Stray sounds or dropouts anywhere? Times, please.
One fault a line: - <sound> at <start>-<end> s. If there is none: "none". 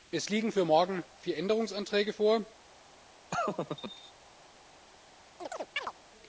- laugh at 3.3-4.1 s
- chirp at 5.4-5.9 s